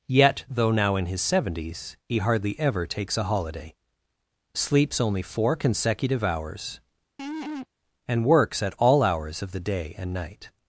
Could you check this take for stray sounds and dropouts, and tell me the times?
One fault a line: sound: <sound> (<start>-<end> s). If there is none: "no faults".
sound: laugh (7.2-7.7 s)